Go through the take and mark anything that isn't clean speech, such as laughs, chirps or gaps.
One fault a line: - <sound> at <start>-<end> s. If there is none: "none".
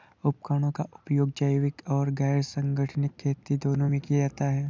none